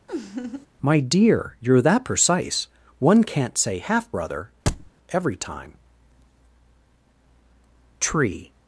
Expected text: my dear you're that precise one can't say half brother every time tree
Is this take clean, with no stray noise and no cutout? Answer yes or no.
no